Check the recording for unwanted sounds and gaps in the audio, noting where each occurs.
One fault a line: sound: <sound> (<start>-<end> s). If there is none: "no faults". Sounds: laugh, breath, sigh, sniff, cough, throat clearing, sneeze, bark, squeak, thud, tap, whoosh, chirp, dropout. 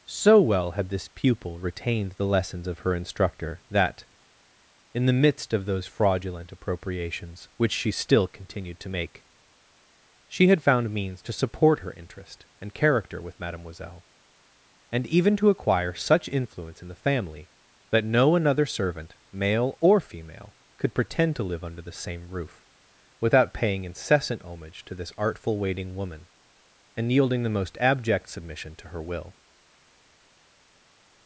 no faults